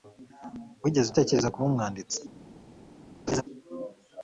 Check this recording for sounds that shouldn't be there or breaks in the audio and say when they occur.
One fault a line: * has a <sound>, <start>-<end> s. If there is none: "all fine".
* has a laugh, 3.3-3.4 s